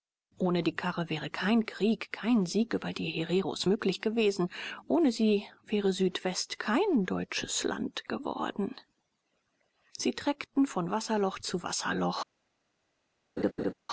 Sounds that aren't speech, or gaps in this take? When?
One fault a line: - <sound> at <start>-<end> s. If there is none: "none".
- laugh at 13.4-13.7 s